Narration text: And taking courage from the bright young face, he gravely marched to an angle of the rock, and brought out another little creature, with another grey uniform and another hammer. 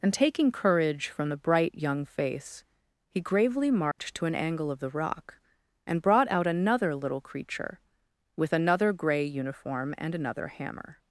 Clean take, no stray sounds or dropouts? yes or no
no